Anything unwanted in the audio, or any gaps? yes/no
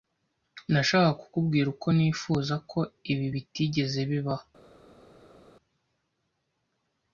no